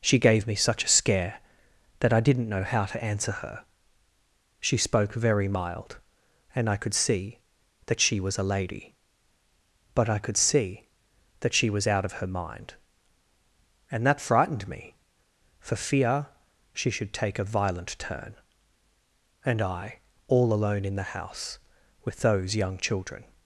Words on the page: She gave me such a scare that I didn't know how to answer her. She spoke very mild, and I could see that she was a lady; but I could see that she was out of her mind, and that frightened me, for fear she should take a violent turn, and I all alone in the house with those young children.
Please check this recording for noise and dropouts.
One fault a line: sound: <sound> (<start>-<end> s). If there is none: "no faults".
no faults